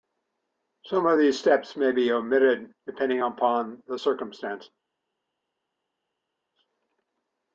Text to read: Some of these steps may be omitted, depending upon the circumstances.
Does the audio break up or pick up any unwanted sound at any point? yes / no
no